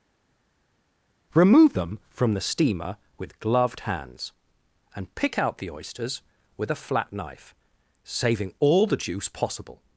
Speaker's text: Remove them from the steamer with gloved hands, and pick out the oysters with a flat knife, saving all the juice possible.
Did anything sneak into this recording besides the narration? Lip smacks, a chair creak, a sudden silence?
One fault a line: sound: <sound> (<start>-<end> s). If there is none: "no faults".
no faults